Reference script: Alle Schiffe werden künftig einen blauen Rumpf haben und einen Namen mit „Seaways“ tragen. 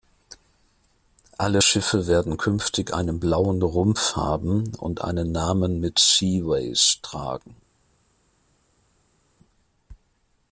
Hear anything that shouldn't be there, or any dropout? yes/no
no